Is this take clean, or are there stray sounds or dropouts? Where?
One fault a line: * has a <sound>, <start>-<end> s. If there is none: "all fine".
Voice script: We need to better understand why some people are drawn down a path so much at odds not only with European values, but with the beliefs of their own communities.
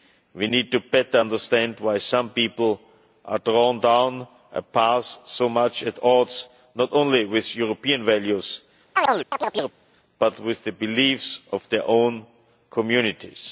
* has a chirp, 9.0-9.8 s